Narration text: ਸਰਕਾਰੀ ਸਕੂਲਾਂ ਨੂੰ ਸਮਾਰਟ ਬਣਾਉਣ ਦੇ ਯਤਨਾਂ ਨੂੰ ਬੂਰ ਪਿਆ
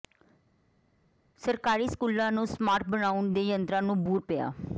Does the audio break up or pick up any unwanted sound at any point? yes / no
no